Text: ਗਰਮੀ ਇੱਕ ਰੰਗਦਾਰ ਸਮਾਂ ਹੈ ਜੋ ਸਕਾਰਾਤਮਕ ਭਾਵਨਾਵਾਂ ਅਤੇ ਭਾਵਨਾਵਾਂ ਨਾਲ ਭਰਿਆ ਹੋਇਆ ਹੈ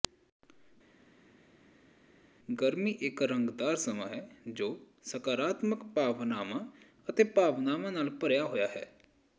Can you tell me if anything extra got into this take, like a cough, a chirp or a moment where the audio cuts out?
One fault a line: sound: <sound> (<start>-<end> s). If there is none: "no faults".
no faults